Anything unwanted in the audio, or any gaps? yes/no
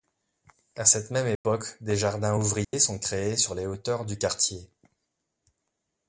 yes